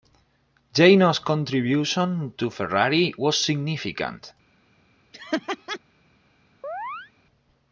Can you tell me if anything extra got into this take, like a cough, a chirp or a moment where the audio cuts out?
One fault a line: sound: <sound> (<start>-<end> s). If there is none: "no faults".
sound: laugh (5.1-5.8 s)
sound: chirp (6.6-7.1 s)